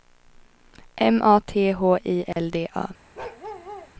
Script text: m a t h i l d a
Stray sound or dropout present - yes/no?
yes